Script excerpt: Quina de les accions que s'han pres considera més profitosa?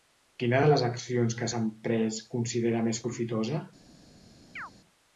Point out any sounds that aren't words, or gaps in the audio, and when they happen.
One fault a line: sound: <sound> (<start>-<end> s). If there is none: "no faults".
sound: chirp (4.6-4.7 s)